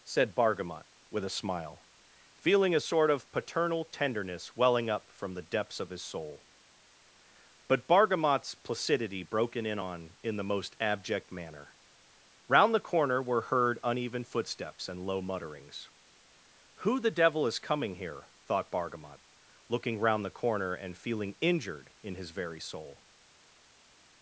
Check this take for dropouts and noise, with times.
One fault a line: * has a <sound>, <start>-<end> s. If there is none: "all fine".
all fine